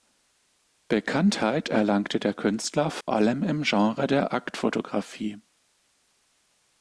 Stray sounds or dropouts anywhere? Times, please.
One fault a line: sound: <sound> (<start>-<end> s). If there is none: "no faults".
sound: dropout (3.0-3.1 s)